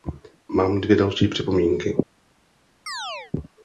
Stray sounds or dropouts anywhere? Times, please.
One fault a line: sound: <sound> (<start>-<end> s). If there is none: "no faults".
sound: chirp (2.9-3.3 s)